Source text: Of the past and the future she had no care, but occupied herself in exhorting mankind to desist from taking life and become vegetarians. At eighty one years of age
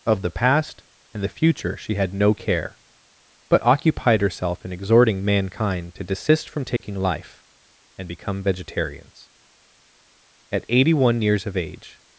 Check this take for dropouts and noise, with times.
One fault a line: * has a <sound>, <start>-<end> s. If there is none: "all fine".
* has a dropout, 6.8-6.8 s